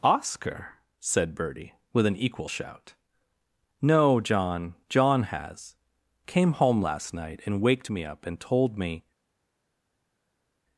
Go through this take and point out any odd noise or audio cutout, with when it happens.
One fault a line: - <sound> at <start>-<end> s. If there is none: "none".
none